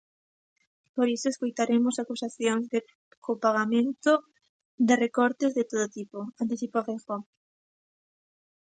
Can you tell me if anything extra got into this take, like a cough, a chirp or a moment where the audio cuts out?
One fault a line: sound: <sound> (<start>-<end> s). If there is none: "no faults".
no faults